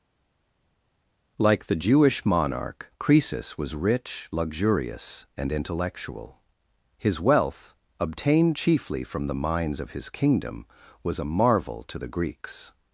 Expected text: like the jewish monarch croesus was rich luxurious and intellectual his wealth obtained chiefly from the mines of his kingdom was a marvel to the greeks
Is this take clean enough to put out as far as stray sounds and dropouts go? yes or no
yes